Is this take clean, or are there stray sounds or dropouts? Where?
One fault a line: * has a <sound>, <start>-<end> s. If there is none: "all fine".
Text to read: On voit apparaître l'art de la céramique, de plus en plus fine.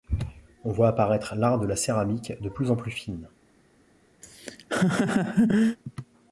* has a laugh, 4.2-5.8 s